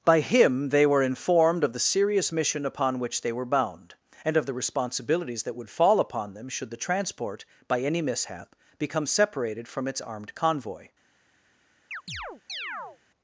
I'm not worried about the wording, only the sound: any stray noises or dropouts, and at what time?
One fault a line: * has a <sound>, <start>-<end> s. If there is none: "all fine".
* has a chirp, 11.9-13.0 s